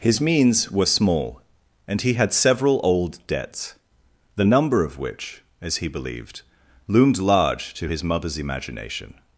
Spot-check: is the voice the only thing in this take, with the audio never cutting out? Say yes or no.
yes